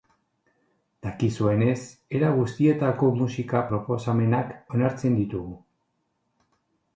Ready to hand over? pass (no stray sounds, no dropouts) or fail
pass